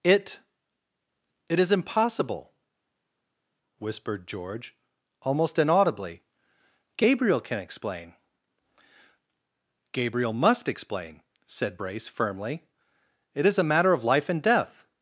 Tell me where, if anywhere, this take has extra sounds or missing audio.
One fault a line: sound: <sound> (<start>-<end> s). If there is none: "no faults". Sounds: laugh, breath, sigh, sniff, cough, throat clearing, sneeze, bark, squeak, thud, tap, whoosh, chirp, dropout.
no faults